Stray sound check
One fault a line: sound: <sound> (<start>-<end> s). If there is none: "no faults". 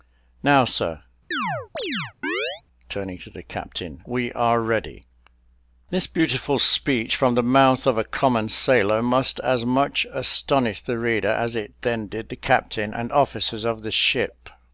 sound: chirp (1.3-2.6 s)